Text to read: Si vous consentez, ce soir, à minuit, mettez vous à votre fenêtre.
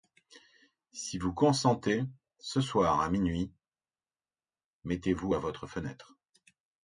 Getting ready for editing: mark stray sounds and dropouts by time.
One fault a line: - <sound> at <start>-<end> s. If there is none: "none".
none